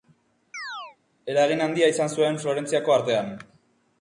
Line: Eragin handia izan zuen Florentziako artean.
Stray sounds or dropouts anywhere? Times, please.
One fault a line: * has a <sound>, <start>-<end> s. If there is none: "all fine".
* has a chirp, 0.5-1.0 s